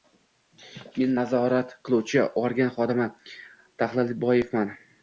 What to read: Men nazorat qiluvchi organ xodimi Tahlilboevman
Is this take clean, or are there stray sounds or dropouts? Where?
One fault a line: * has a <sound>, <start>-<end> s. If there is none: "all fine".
all fine